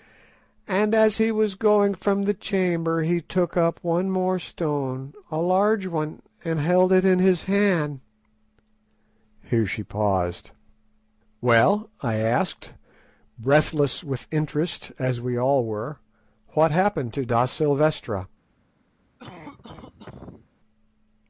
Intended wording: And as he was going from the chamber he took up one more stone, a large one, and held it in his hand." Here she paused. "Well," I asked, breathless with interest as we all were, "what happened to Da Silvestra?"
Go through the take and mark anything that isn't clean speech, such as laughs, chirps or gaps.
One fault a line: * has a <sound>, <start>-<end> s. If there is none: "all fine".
* has a cough, 19.2-20.5 s